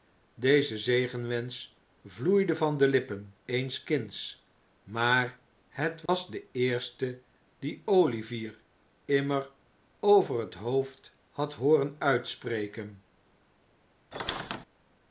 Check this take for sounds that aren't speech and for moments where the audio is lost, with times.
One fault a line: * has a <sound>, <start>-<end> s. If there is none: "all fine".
* has a dropout, 6.1-6.1 s
* has a squeak, 14.1-14.7 s